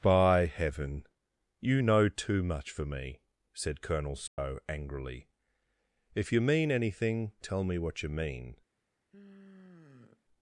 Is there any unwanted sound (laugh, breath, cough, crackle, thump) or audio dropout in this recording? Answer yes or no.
yes